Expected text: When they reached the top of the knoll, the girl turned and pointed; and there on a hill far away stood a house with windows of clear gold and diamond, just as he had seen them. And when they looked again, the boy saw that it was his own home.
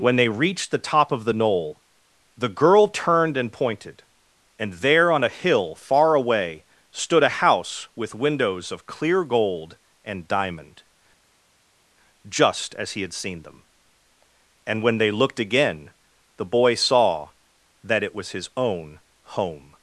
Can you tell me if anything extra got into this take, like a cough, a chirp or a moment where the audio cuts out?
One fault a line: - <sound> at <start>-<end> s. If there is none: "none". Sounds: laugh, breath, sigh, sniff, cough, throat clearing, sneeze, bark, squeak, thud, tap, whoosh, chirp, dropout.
none